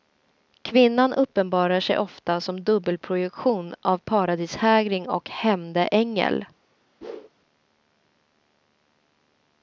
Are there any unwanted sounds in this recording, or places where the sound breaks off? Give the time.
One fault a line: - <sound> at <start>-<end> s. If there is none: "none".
- whoosh at 7.0-7.3 s